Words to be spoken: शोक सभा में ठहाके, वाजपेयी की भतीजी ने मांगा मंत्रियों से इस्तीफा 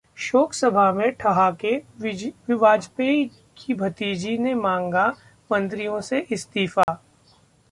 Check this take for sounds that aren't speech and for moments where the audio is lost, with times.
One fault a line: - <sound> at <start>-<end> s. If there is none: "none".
- dropout at 6.8-6.9 s